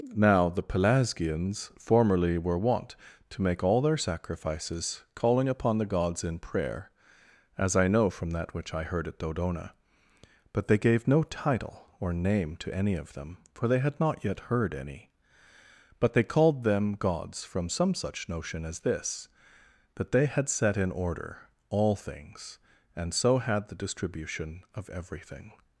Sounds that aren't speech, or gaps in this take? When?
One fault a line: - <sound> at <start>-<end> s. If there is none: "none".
none